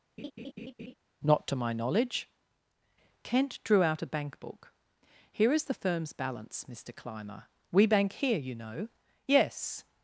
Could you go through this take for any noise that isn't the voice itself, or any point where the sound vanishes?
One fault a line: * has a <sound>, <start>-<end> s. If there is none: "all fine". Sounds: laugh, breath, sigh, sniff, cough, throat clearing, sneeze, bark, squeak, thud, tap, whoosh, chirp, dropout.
* has a laugh, 0.2-0.9 s